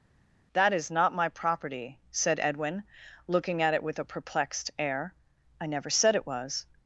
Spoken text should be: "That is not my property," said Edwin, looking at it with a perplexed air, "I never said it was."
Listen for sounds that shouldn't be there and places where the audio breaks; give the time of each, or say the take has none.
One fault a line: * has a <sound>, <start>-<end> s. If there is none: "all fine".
all fine